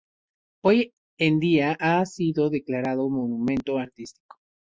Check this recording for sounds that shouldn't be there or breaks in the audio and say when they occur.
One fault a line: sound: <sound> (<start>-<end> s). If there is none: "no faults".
no faults